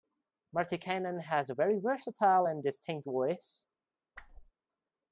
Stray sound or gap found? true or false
true